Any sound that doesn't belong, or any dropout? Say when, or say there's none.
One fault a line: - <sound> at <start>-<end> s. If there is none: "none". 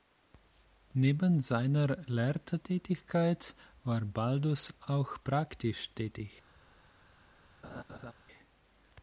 - laugh at 7.6-8.1 s